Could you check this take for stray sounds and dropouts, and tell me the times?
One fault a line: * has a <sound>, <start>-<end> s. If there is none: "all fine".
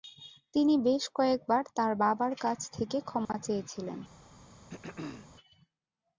* has a dropout, 3.3-3.3 s
* has a throat clearing, 4.7-5.3 s